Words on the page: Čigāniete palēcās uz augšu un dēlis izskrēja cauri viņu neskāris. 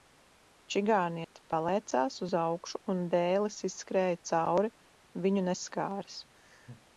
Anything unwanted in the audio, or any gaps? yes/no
yes